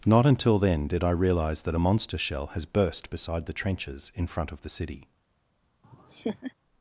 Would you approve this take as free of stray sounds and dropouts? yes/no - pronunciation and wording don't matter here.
no